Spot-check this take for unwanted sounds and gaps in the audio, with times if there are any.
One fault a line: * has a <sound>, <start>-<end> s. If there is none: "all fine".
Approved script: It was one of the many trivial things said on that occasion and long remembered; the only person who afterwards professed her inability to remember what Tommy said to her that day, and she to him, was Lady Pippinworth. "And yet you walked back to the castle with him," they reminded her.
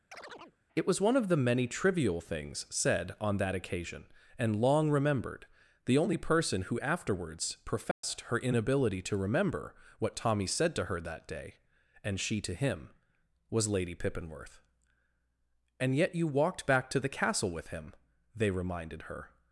* has a chirp, 0.1-0.6 s
* has a dropout, 7.9-8.0 s